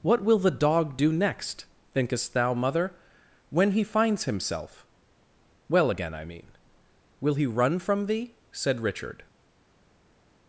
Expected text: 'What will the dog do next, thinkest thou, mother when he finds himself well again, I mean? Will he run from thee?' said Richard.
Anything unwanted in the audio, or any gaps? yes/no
no